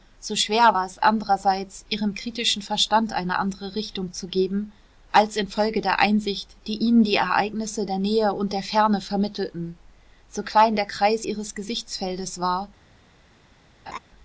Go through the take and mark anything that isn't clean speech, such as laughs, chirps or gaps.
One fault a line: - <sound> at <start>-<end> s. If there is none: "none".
- laugh at 13.9-14.0 s